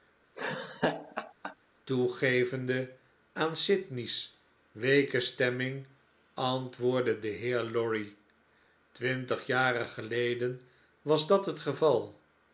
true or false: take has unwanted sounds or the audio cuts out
true